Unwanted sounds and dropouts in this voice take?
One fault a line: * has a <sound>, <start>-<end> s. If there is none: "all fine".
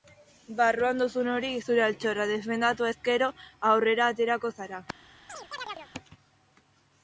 * has a chirp, 5.3-5.9 s